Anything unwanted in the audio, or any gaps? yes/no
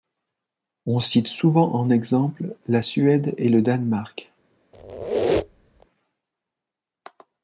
yes